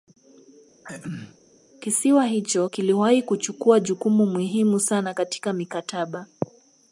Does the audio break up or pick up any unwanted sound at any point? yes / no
yes